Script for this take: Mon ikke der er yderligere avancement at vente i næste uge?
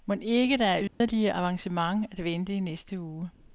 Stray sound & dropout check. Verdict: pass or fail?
fail